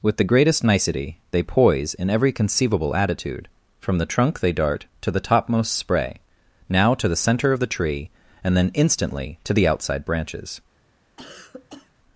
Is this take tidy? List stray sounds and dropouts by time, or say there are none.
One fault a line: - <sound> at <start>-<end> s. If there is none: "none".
- cough at 11.2-11.9 s